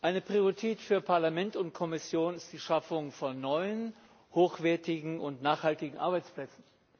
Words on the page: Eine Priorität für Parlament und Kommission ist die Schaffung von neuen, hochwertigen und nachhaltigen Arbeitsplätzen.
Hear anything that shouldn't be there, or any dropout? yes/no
no